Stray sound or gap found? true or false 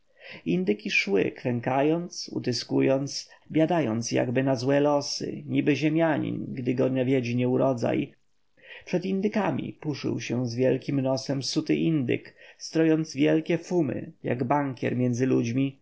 false